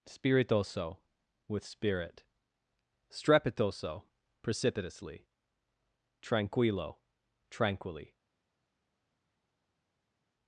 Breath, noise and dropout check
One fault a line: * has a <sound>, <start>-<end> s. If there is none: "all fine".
all fine